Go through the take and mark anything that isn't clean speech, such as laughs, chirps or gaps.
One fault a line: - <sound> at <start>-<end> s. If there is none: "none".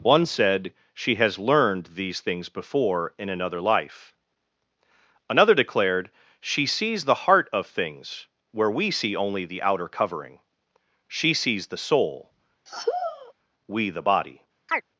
- sigh at 12.7-13.3 s
- chirp at 14.7-14.8 s